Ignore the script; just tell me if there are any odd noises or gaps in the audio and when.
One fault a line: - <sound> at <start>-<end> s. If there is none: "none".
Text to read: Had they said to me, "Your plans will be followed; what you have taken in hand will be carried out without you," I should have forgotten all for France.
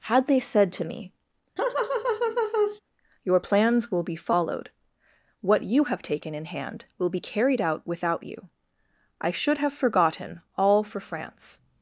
- laugh at 1.6-2.8 s